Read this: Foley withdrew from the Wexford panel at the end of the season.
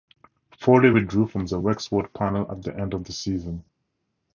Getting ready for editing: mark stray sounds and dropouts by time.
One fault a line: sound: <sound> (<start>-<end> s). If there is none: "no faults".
no faults